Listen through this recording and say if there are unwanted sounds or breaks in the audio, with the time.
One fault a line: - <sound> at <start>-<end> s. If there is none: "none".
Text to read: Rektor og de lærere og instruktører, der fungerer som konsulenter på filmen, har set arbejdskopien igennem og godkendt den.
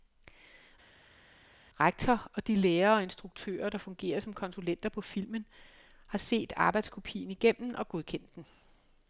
none